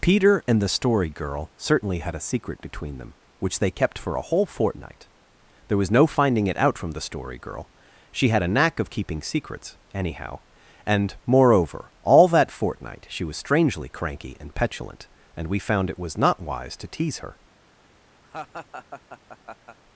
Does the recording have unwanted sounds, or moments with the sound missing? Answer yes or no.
yes